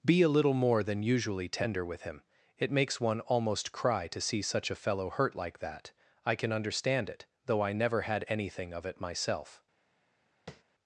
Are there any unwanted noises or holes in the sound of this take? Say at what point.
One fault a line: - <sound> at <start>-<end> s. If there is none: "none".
- tap at 10.5-10.6 s